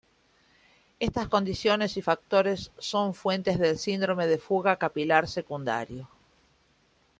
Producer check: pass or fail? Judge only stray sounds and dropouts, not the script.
pass